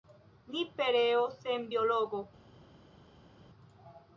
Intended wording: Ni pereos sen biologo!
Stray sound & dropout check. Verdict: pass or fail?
pass